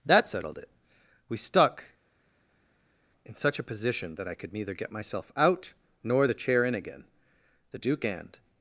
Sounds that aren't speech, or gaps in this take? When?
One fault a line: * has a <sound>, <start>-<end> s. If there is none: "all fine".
all fine